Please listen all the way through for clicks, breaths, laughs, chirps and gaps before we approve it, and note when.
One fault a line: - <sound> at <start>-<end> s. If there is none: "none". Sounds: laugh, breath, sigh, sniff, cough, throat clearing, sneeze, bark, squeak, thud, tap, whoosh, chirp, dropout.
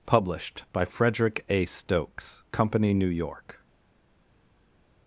none